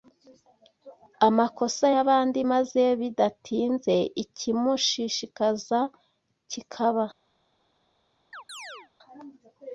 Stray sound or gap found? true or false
true